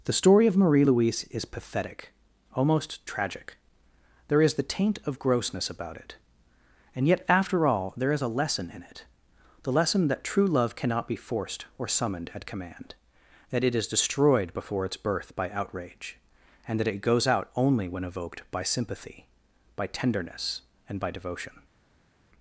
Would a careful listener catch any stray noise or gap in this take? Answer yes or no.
no